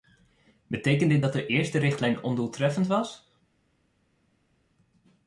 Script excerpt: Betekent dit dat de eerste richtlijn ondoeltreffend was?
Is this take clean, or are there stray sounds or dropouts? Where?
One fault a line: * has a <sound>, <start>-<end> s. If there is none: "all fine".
all fine